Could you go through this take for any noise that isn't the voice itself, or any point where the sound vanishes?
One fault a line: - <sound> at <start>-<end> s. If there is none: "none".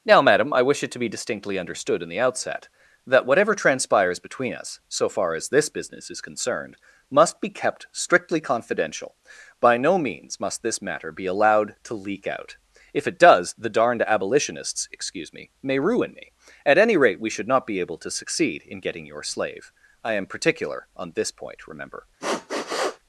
- sniff at 22.2-23.0 s